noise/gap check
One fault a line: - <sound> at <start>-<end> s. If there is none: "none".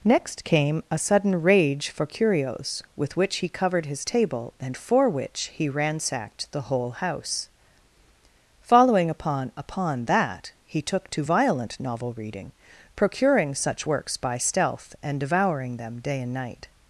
none